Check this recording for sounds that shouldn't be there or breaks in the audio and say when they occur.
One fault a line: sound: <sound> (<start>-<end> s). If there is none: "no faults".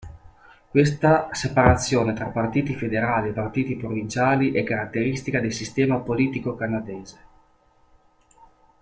no faults